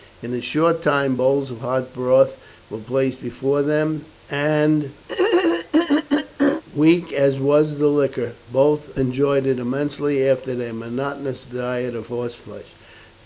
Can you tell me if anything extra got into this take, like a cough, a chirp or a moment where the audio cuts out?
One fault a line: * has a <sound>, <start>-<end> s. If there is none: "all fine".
* has a throat clearing, 5.1-6.6 s